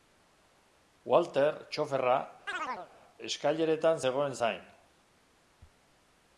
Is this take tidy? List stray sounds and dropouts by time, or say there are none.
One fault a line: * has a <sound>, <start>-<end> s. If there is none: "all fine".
* has a chirp, 2.5-2.9 s